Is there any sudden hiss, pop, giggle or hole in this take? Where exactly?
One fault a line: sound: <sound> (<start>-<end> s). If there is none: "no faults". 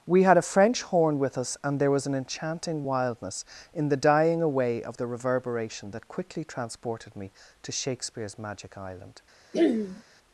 sound: throat clearing (9.5-10.0 s)